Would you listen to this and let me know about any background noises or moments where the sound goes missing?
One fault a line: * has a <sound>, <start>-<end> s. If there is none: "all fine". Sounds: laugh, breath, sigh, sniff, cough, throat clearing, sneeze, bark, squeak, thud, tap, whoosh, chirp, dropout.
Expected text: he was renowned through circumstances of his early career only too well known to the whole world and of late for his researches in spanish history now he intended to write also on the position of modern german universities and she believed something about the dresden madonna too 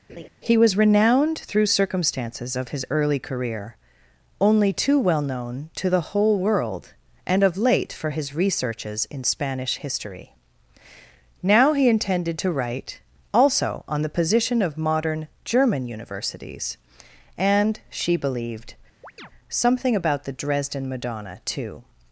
* has a laugh, 0.1-0.3 s
* has a chirp, 19.0-19.3 s